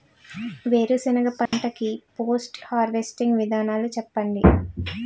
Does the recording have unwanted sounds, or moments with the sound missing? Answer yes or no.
yes